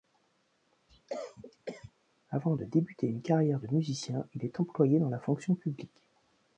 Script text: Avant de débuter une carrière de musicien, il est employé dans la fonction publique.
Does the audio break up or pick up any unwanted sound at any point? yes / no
yes